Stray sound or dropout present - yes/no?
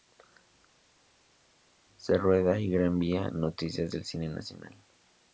no